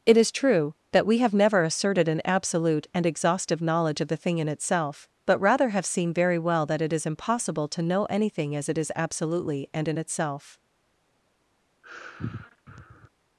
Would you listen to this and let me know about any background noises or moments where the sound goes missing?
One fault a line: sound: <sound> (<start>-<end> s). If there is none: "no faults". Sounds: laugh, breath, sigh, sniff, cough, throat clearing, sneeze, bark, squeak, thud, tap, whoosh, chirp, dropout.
sound: sigh (11.8-13.1 s)